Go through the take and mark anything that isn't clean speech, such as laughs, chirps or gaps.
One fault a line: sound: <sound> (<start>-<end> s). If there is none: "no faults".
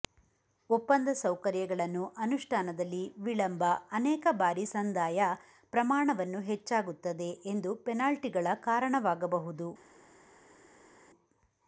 no faults